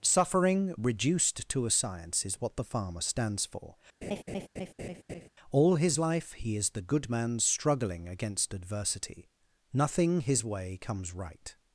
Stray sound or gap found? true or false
true